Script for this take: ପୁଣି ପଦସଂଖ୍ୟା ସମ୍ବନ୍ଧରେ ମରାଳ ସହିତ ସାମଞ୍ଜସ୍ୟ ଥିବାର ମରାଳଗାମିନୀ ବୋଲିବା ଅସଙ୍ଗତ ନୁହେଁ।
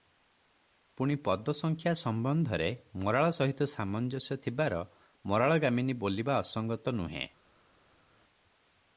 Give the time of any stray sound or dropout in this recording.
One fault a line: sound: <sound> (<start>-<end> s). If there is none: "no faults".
no faults